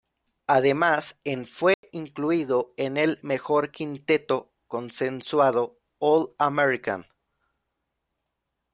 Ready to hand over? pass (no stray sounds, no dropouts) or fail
fail